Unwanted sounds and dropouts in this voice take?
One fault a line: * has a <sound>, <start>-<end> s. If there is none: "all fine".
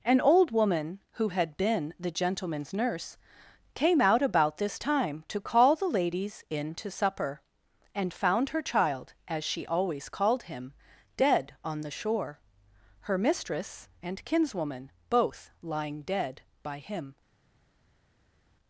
all fine